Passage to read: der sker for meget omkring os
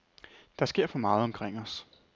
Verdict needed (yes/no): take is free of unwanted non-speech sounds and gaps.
yes